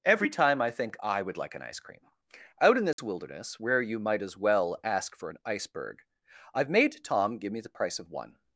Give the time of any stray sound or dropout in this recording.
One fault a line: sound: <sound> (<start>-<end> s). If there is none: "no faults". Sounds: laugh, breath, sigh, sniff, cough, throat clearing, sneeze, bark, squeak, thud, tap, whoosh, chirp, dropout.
sound: dropout (2.9-3.0 s)